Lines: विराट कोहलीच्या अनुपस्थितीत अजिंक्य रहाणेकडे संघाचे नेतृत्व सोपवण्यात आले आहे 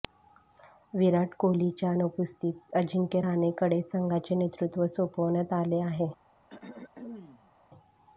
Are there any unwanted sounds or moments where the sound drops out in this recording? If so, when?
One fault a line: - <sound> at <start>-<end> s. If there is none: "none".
- throat clearing at 6.5-7.5 s